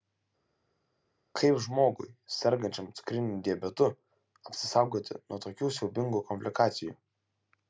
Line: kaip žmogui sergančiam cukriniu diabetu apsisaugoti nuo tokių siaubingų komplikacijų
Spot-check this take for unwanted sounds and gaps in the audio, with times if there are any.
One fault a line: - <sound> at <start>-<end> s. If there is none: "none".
none